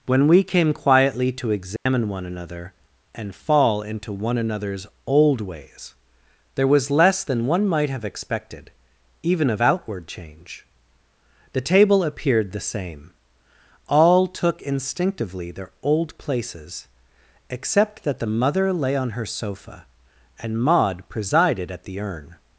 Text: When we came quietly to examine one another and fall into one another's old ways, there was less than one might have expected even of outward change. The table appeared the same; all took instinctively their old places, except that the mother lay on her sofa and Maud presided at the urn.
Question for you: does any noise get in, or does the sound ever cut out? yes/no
yes